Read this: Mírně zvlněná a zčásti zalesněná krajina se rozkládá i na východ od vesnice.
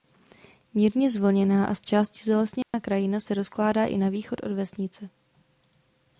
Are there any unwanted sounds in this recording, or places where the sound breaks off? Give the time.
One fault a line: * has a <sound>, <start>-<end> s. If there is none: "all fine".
* has a dropout, 2.6-2.7 s